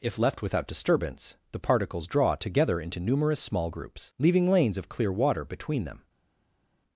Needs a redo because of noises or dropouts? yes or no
no